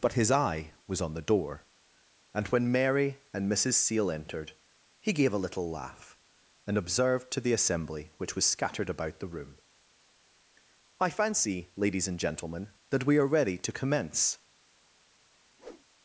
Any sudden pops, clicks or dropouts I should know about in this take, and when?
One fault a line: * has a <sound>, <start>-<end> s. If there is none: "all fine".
* has a whoosh, 15.6-15.9 s